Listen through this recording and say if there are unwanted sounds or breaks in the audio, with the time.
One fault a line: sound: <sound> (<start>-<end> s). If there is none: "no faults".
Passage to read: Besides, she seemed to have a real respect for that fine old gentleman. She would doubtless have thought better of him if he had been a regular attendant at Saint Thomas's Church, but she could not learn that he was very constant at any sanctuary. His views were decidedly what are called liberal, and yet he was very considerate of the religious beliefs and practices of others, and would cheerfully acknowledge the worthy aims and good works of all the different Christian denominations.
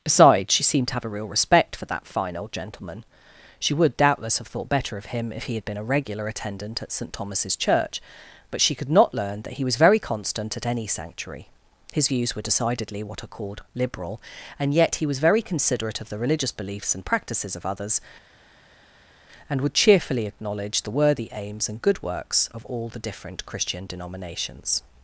no faults